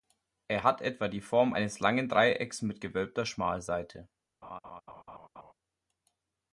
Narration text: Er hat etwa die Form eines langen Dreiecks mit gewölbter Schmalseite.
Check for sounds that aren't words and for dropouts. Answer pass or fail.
fail